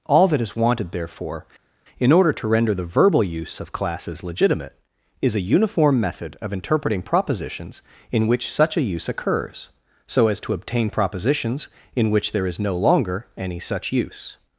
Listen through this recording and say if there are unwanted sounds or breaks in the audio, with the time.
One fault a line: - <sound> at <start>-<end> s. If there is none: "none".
none